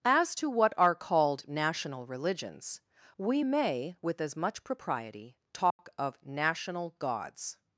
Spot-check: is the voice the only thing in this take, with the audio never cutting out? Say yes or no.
no